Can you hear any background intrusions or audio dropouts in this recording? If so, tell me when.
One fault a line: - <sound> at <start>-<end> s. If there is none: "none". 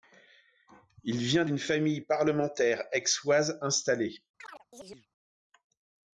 - chirp at 4.4-5.1 s